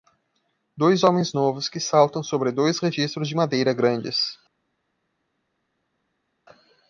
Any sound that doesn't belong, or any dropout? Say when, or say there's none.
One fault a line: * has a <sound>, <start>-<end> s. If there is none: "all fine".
all fine